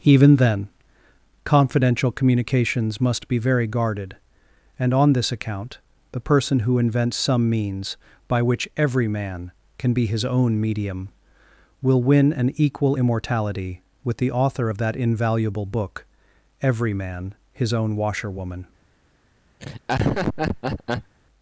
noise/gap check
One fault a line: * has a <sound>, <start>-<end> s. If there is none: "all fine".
* has a laugh, 19.6-21.1 s